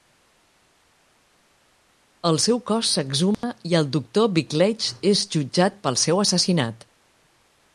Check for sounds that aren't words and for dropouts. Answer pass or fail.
fail